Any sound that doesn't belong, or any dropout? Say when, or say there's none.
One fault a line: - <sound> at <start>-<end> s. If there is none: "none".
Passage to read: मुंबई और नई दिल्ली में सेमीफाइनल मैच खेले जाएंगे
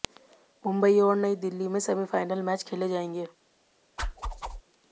- whoosh at 4.0-4.6 s